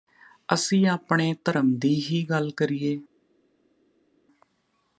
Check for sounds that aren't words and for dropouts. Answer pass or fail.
pass